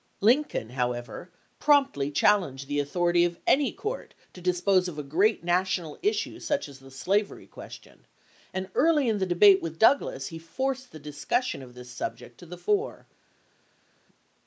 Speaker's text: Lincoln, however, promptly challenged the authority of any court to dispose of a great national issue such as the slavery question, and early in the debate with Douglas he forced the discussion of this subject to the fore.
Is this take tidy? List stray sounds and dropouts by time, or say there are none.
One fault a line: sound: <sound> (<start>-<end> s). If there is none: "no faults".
no faults